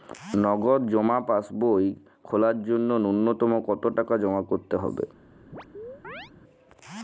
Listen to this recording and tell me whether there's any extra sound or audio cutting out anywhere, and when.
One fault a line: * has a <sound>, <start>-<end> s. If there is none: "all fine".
* has a chirp, 5.5-6.3 s